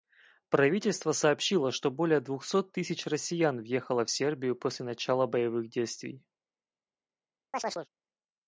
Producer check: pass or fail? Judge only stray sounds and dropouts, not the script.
fail